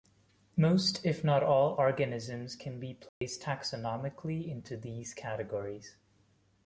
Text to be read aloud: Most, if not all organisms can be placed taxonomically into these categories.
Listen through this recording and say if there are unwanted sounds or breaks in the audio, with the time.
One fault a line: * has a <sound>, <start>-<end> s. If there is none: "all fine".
* has a dropout, 3.1-3.2 s